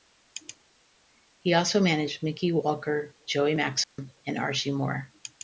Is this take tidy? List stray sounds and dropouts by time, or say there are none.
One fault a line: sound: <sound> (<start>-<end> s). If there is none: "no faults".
sound: dropout (3.8-4.0 s)